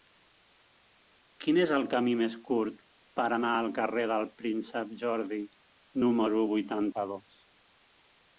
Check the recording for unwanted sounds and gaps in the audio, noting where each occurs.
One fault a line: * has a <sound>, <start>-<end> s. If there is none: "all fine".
all fine